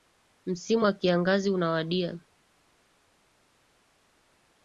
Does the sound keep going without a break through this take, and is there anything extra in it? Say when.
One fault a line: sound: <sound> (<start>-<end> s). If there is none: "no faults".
no faults